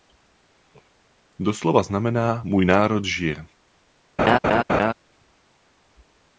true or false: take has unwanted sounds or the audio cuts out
true